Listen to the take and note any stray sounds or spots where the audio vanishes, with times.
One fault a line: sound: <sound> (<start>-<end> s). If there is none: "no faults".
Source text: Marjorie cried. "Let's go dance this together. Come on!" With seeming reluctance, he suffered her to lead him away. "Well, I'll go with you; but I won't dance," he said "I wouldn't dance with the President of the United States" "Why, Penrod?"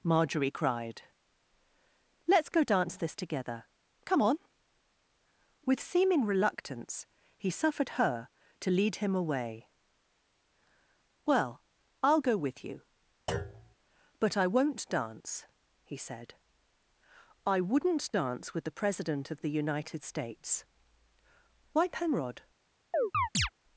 sound: thud (13.3-13.8 s)
sound: chirp (22.9-23.5 s)